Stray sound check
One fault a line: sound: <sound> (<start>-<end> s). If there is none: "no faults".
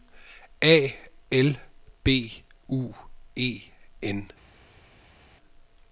no faults